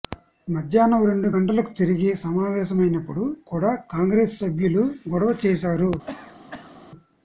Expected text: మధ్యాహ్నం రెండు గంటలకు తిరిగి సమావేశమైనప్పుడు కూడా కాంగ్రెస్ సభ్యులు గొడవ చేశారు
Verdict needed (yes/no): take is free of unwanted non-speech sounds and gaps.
no